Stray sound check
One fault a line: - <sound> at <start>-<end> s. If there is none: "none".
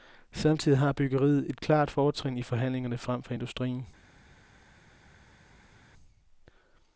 none